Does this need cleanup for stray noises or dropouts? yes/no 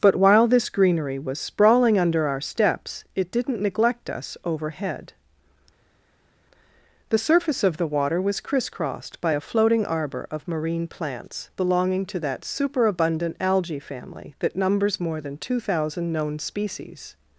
no